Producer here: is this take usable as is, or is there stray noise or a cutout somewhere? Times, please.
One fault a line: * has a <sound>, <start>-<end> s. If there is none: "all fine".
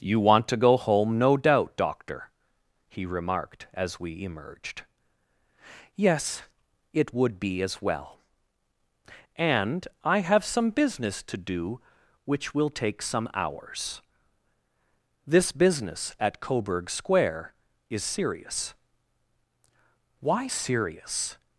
all fine